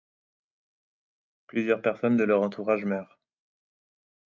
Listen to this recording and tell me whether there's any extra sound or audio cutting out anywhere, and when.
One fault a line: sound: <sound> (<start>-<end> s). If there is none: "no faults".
no faults